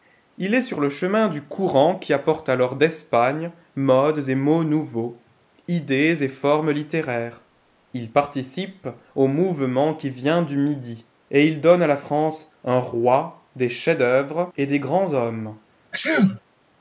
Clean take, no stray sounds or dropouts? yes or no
no